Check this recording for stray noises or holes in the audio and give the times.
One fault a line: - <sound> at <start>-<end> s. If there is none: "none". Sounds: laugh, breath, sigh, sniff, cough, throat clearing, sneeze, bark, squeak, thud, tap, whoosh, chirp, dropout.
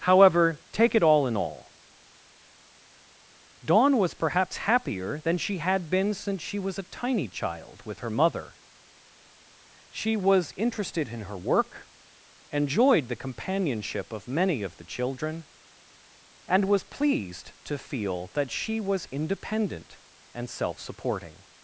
none